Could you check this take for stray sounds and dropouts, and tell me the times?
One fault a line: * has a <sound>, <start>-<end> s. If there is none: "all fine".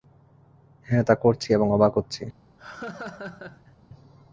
* has a laugh, 2.6-3.8 s